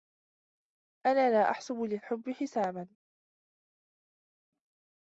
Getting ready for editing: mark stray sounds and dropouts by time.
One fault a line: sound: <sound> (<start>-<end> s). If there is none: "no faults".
no faults